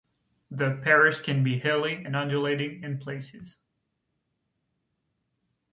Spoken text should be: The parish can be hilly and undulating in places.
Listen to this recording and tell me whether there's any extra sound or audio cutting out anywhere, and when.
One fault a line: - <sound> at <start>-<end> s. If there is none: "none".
none